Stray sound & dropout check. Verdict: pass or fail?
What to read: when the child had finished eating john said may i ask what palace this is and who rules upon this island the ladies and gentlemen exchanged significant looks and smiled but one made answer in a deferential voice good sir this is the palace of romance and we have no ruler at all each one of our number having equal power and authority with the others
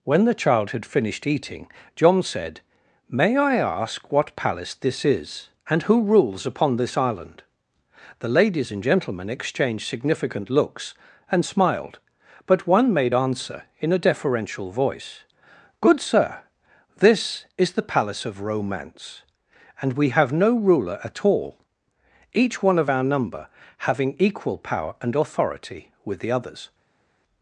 pass